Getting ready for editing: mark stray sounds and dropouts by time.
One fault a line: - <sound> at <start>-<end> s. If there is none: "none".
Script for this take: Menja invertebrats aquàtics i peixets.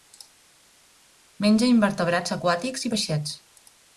none